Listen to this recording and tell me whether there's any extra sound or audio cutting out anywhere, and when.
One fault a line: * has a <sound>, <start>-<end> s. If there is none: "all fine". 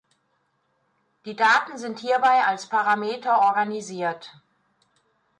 all fine